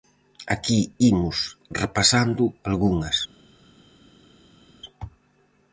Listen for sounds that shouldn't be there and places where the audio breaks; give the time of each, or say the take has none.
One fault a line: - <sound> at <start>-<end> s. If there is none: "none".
none